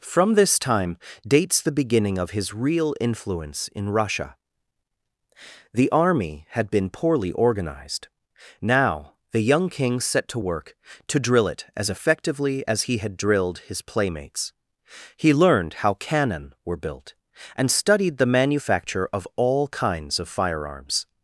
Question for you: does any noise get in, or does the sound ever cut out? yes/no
no